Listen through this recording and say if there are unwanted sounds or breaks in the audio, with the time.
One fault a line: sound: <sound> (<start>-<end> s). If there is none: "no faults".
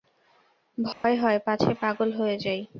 sound: dropout (0.9-1.0 s)